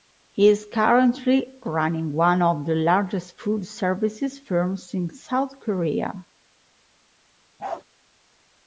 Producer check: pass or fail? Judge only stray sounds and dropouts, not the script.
fail